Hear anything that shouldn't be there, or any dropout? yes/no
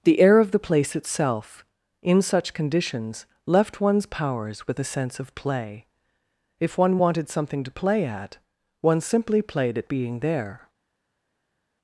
no